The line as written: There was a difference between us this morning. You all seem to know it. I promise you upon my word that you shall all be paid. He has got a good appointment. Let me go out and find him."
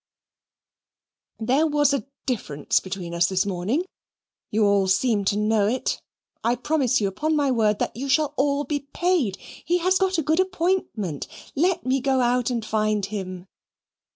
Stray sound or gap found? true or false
false